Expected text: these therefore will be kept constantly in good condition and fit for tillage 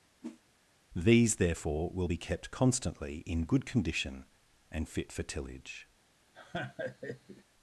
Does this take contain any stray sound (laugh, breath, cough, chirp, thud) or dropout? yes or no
yes